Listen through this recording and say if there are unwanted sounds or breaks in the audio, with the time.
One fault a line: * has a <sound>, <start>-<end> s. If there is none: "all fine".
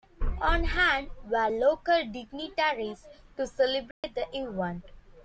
* has a dropout, 3.9-4.0 s